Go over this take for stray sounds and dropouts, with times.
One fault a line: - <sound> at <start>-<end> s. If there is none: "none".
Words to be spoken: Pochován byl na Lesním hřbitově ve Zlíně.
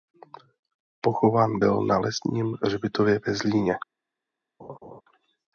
- laugh at 4.6-5.0 s